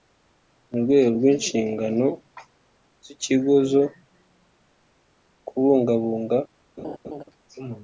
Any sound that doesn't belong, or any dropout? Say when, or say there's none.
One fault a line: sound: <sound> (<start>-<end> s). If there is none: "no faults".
sound: laugh (6.8-7.2 s)